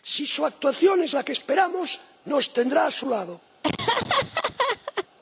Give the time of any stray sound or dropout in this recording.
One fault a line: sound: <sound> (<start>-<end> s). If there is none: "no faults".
sound: laugh (3.6-5.1 s)